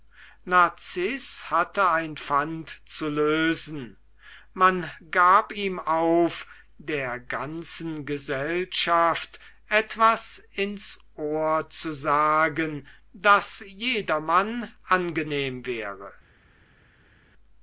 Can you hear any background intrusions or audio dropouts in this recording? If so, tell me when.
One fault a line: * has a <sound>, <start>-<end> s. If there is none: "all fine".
all fine